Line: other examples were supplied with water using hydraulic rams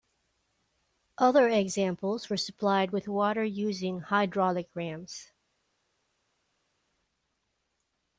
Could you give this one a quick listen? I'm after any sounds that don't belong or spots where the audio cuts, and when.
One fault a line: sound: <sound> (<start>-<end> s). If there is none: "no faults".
no faults